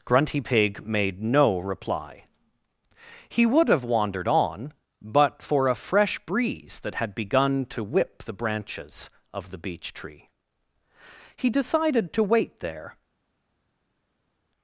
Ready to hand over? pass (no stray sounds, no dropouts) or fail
pass